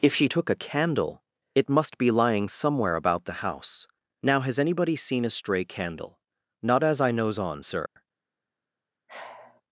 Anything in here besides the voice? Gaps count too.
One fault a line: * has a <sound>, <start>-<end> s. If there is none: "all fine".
* has a dropout, 7.9-8.0 s
* has a sigh, 9.1-9.6 s